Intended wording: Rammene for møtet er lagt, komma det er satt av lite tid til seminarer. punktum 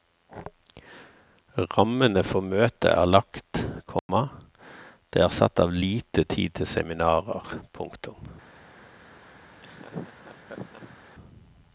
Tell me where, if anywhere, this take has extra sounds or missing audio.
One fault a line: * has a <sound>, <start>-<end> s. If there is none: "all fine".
* has a dropout, 4.0-4.1 s
* has a laugh, 9.6-11.0 s